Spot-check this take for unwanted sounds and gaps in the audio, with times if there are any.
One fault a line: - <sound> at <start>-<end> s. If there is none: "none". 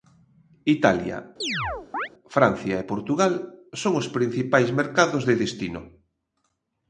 - chirp at 1.4-2.1 s